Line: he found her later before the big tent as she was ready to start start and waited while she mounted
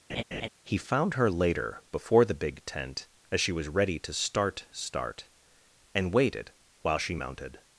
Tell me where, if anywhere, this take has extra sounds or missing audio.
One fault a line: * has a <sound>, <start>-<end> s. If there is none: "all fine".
* has a laugh, 0.1-0.5 s